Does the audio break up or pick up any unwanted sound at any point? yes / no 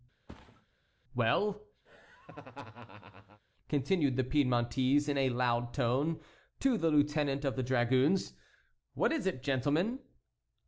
yes